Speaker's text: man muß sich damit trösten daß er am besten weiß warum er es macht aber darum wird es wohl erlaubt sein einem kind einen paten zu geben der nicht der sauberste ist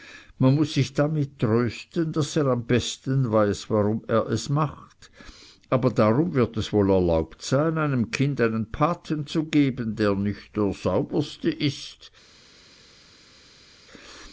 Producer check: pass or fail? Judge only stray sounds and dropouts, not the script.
pass